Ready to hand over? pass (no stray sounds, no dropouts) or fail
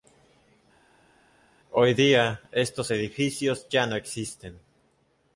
pass